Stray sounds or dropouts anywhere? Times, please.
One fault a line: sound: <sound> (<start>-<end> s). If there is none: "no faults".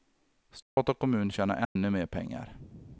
sound: dropout (0.6-0.8 s)
sound: dropout (1.6-1.8 s)